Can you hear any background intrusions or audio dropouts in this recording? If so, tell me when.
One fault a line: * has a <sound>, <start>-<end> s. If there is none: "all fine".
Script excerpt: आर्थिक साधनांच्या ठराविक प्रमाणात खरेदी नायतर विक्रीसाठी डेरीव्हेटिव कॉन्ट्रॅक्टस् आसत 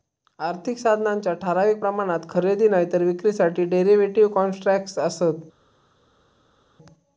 all fine